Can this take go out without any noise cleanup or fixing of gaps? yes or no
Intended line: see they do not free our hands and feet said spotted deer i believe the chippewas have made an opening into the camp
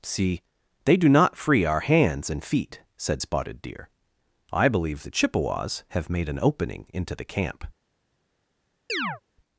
no